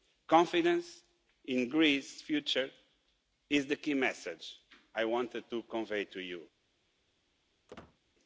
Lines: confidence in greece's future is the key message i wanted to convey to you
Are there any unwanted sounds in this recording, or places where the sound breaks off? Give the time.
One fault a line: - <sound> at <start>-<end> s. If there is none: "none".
- squeak at 7.7-8.0 s